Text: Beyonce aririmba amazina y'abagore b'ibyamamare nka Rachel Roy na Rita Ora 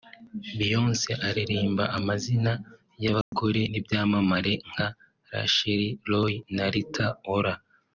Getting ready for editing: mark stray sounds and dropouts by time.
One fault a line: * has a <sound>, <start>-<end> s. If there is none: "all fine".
* has a dropout, 3.2-3.3 s